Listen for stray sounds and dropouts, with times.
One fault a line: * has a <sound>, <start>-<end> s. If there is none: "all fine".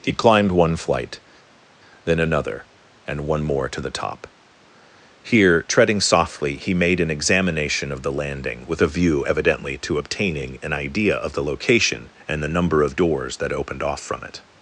all fine